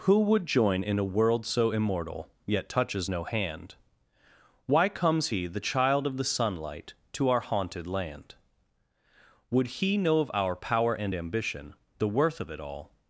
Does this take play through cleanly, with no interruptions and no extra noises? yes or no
yes